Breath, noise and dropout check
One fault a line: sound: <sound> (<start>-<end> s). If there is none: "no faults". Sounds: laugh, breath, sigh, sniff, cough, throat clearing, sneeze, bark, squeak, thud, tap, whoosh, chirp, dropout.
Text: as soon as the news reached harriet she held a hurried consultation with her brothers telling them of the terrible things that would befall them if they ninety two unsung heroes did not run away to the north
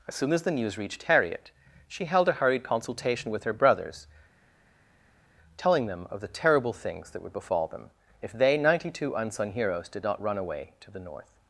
no faults